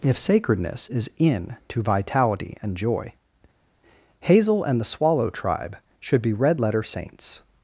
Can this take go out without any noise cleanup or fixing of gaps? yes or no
yes